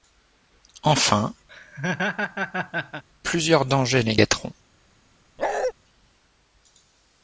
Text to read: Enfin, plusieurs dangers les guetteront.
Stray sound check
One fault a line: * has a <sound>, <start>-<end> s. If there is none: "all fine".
* has a laugh, 1.5-3.0 s
* has a bark, 5.4-5.7 s